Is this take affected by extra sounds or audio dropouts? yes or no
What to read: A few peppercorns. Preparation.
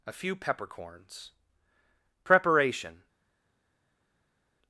no